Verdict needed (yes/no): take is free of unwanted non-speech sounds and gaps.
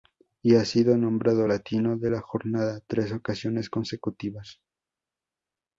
yes